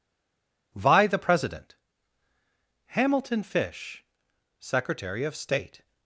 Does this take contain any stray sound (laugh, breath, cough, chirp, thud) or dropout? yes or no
no